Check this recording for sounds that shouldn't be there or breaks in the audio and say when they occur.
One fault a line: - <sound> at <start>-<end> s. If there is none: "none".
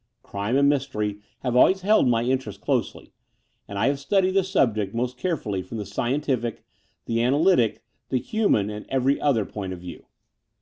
none